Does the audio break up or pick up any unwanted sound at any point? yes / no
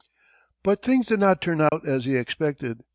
yes